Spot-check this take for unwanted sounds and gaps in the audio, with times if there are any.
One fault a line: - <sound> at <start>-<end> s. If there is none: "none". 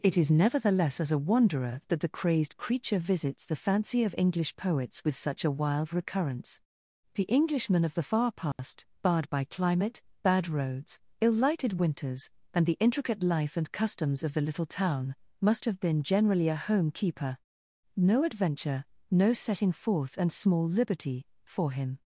- dropout at 8.5-8.6 s